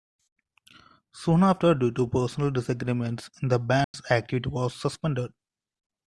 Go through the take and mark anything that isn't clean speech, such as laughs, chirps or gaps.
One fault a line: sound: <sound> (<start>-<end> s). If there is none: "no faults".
sound: dropout (3.8-3.9 s)